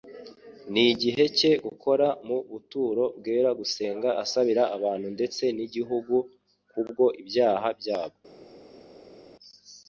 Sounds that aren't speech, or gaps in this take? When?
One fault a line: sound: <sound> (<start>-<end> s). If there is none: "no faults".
no faults